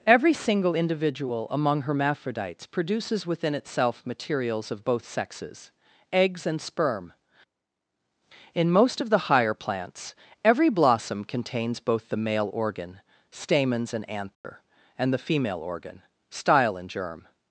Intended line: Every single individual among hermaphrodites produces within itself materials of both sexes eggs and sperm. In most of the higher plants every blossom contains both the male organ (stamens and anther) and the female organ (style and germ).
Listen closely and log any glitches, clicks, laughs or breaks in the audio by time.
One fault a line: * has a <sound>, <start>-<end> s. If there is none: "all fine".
* has a dropout, 14.3-14.4 s